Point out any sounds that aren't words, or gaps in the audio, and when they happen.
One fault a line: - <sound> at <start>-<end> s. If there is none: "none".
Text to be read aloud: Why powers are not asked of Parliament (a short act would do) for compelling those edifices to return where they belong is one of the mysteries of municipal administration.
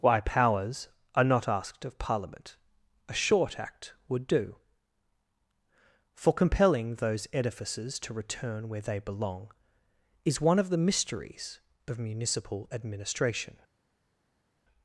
none